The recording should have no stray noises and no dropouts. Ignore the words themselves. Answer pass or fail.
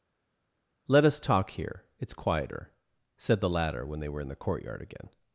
pass